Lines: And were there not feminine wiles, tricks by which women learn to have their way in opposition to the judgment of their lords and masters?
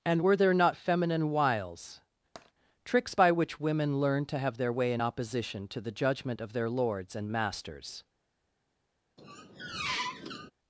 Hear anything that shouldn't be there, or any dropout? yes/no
yes